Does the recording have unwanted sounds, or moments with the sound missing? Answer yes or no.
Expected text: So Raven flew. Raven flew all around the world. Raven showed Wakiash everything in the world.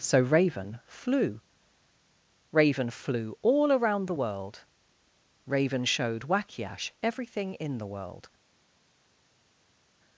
no